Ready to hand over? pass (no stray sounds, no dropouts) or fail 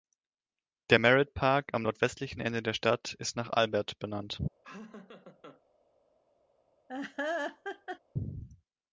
fail